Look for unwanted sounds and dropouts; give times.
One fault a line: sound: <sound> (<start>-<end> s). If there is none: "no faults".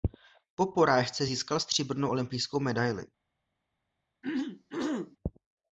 sound: throat clearing (4.2-5.2 s)